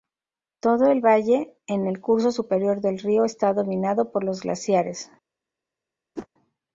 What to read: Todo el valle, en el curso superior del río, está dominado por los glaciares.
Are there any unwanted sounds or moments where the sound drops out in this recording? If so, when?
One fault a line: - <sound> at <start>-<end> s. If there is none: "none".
- whoosh at 6.2-6.3 s